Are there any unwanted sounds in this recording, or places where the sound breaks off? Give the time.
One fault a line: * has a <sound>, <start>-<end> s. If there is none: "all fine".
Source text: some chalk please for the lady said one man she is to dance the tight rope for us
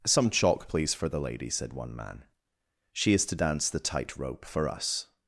all fine